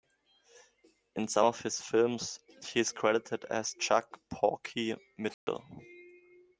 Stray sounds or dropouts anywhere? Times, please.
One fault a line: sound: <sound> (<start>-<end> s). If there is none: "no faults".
sound: dropout (5.3-5.5 s)